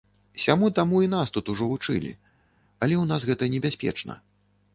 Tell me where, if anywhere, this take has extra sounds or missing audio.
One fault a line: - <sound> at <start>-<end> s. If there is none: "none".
none